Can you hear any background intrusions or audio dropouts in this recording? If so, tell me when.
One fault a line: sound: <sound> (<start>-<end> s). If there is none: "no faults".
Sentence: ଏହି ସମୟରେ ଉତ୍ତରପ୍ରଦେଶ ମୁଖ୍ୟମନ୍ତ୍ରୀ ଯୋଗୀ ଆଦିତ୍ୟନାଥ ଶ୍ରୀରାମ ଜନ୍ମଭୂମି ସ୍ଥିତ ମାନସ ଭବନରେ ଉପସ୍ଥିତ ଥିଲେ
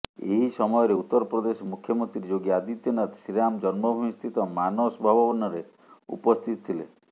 no faults